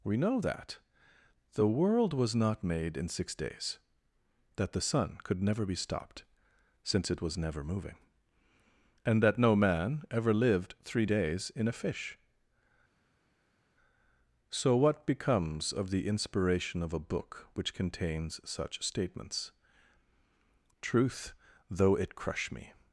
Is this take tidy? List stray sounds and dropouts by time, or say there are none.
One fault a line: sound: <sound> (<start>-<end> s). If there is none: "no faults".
no faults